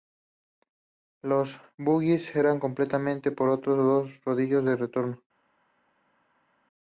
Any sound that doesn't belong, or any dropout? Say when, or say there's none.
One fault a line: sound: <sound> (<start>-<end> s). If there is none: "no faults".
no faults